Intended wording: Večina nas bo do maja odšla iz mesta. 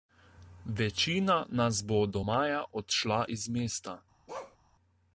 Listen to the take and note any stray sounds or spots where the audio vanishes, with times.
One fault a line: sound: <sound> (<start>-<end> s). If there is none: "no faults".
sound: bark (4.3-4.6 s)